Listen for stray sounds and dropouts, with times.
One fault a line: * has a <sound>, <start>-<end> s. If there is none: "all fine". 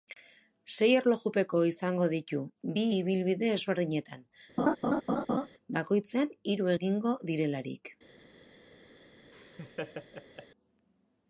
* has a laugh, 4.6-5.5 s
* has a laugh, 9.3-10.5 s